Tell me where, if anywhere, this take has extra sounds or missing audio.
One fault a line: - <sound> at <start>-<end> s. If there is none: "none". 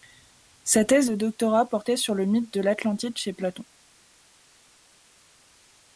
none